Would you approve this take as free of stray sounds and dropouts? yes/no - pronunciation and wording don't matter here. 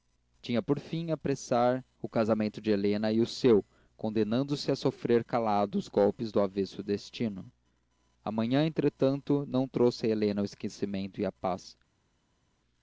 yes